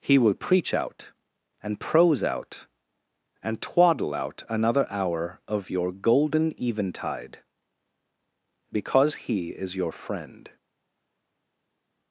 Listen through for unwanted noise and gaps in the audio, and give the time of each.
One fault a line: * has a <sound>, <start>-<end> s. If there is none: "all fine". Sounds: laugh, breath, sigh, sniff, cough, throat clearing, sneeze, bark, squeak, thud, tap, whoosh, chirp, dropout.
all fine